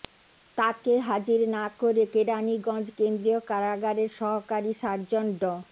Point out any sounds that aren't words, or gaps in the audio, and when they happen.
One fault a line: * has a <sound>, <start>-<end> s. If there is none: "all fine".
all fine